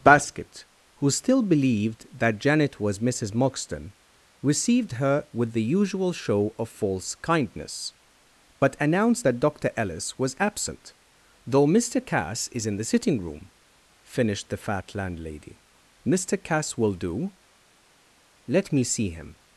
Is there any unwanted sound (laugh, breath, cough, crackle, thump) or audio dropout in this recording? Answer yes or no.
no